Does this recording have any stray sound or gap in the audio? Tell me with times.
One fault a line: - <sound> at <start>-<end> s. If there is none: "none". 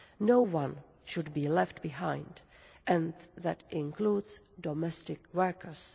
none